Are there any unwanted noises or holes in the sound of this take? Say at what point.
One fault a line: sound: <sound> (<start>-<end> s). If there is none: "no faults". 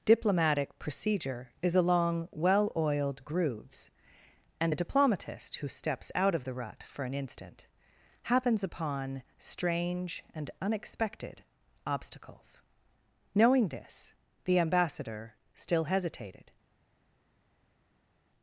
no faults